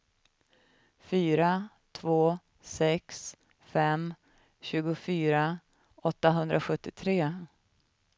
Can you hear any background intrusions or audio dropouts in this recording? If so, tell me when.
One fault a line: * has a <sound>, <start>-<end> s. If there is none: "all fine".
all fine